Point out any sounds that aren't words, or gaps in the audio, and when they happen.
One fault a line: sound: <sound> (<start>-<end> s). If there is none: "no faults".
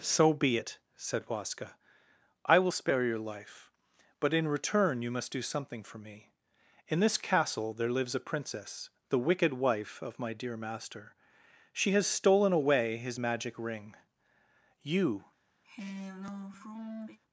sound: sigh (15.6-17.2 s)